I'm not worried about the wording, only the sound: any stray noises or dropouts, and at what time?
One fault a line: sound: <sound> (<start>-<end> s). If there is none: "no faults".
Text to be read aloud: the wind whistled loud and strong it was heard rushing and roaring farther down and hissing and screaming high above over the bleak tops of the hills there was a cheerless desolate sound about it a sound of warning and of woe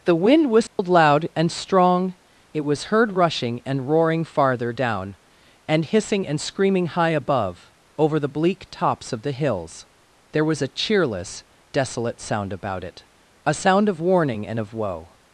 sound: dropout (0.7-0.8 s)